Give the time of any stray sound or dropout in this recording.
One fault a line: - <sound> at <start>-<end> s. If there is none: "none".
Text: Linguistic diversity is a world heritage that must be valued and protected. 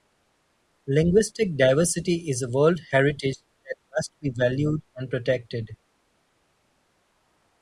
none